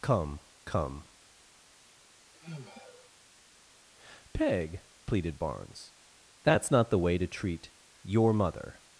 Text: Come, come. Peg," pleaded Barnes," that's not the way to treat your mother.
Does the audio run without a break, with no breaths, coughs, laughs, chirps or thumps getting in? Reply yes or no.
no